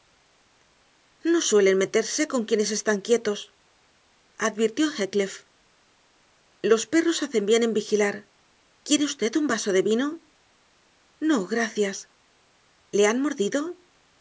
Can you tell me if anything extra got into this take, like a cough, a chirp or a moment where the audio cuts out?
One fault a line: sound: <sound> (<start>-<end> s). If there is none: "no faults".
no faults